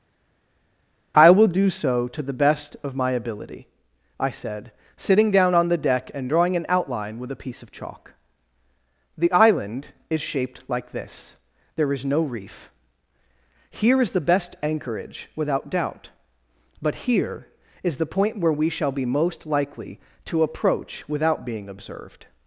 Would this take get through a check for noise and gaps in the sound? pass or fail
pass